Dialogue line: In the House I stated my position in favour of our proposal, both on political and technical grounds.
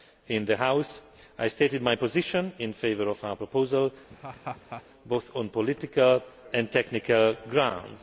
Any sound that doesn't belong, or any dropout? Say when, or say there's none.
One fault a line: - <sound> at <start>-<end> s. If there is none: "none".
- laugh at 4.1-4.8 s